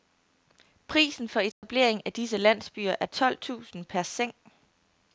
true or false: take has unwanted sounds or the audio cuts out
true